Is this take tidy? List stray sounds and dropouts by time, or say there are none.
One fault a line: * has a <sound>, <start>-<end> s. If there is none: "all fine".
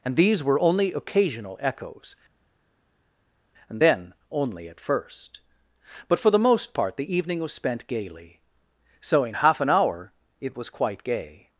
all fine